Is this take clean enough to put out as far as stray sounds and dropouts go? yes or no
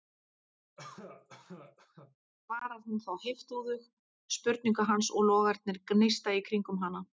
no